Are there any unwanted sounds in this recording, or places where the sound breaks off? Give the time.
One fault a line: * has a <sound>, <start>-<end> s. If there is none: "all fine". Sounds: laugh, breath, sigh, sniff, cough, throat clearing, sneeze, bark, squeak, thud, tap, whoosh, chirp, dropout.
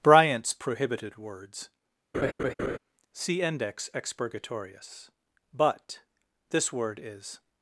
* has a laugh, 2.1-2.8 s